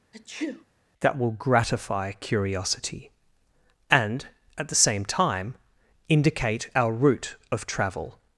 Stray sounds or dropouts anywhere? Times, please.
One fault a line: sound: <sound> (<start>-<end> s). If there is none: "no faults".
sound: sneeze (0.1-0.6 s)